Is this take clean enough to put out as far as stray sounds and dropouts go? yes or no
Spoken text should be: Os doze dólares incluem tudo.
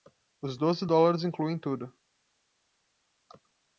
yes